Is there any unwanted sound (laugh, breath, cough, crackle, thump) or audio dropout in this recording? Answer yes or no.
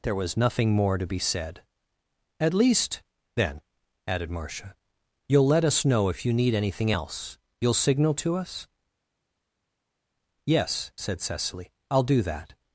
no